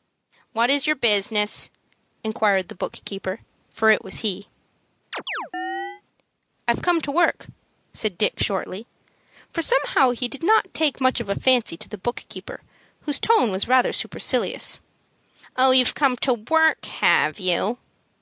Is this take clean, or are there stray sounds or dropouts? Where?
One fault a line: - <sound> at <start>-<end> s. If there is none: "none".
- chirp at 5.1-6.0 s